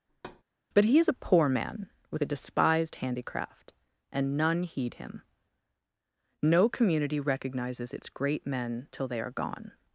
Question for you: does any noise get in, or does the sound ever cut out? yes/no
yes